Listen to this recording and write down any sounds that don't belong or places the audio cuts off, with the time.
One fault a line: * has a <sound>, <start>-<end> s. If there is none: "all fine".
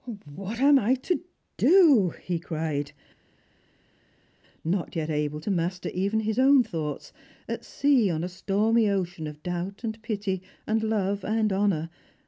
all fine